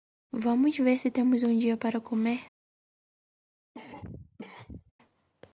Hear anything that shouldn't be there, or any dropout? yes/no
yes